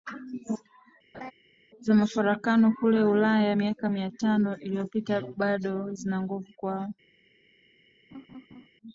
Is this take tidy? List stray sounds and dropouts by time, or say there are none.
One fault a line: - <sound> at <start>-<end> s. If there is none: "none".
- laugh at 1.1-1.3 s
- laugh at 8.1-8.7 s